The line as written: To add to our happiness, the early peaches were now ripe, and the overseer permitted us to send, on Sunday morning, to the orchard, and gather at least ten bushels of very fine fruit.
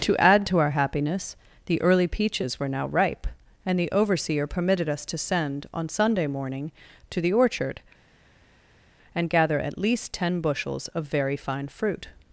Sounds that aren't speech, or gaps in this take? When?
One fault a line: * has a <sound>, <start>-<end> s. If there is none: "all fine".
all fine